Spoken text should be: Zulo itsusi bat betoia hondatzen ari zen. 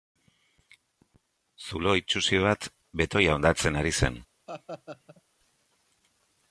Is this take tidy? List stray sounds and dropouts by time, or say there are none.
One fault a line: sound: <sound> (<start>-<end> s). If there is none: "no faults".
sound: laugh (4.5-5.2 s)